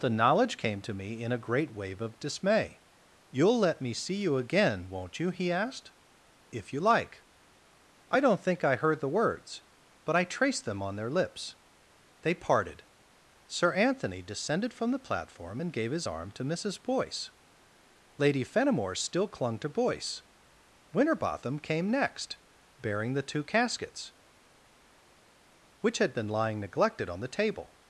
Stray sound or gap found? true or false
false